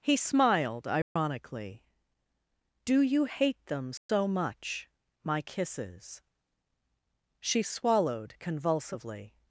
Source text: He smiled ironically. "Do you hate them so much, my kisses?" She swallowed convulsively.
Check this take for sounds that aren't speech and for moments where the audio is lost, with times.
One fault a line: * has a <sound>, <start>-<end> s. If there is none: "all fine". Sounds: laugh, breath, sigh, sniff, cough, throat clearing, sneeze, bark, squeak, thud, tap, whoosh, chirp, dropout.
* has a dropout, 1.0-1.2 s
* has a dropout, 4.0-4.1 s